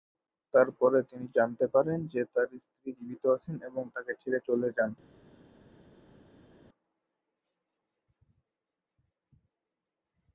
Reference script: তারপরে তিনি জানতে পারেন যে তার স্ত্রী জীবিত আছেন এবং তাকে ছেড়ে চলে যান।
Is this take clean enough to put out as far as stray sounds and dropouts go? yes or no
yes